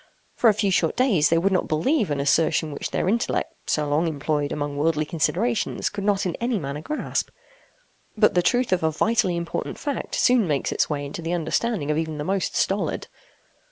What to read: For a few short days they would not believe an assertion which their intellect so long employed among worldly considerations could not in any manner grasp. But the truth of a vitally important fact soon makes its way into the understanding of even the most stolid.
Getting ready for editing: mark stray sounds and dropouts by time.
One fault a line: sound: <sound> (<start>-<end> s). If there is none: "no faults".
no faults